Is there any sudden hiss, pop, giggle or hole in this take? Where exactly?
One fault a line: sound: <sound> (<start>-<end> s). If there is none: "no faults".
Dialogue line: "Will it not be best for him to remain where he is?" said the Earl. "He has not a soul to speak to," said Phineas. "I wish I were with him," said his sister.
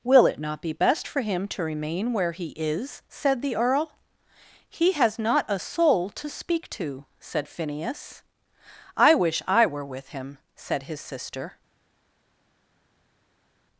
no faults